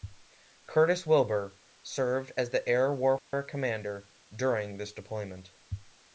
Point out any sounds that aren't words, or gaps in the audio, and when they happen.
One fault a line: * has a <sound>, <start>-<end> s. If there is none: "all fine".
* has a dropout, 3.2-3.3 s